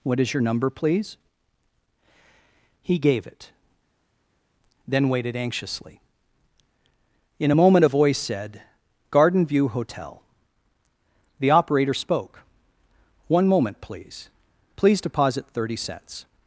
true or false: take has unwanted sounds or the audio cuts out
false